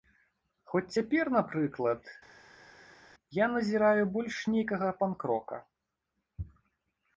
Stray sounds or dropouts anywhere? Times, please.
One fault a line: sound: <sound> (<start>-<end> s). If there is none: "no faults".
no faults